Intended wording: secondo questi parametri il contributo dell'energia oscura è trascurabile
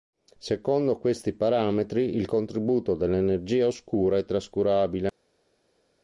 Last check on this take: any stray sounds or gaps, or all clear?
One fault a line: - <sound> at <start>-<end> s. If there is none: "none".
none